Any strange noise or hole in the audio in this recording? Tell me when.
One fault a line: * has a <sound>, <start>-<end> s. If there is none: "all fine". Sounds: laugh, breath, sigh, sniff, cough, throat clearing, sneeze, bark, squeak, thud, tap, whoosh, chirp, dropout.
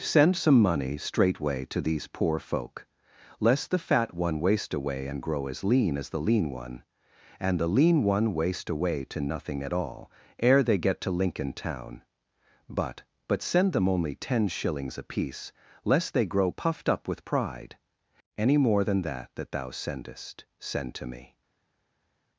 all fine